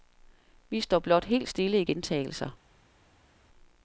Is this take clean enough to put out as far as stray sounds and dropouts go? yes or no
yes